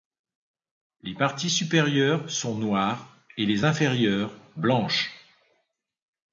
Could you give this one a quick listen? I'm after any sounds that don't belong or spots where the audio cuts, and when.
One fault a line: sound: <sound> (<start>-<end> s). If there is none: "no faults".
no faults